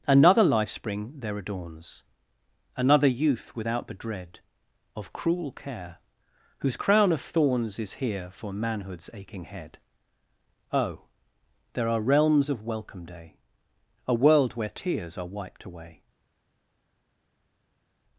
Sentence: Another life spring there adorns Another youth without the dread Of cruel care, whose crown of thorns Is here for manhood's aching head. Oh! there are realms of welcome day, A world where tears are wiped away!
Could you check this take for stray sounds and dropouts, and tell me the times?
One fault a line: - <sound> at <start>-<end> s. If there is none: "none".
none